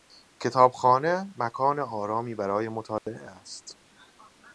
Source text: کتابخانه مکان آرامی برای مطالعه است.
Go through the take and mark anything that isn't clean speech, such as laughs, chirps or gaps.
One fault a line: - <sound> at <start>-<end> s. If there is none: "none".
- dropout at 3.0-3.1 s